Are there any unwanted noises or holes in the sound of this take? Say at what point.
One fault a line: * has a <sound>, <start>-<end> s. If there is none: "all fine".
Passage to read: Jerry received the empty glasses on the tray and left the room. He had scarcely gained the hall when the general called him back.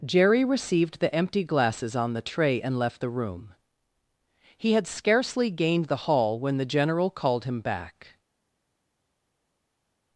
all fine